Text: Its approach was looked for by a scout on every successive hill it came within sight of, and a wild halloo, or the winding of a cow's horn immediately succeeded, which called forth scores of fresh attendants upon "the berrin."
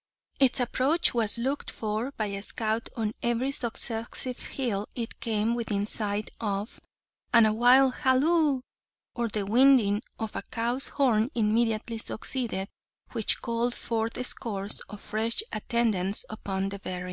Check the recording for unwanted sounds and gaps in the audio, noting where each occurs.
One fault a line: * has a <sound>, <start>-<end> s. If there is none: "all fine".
all fine